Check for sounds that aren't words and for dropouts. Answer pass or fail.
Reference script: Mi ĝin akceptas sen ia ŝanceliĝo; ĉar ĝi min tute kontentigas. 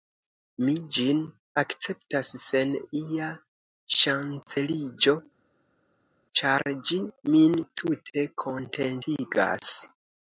pass